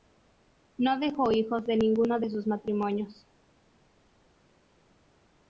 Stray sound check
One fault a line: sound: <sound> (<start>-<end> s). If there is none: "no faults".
no faults